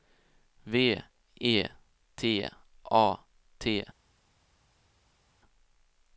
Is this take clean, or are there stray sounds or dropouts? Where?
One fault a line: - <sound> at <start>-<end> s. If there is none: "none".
none